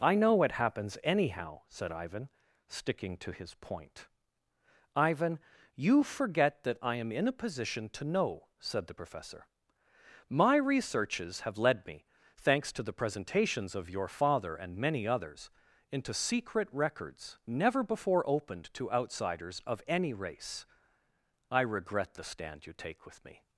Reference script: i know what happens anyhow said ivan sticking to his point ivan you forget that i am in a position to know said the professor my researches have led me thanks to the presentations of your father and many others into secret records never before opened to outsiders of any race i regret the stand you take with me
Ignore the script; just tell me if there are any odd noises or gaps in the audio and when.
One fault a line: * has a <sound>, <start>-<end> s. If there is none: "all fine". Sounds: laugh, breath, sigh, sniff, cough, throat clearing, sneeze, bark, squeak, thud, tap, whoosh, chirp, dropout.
all fine